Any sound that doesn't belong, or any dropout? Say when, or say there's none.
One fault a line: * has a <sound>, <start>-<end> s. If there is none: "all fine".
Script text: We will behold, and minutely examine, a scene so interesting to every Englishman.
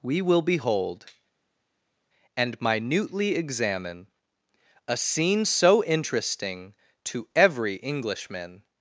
all fine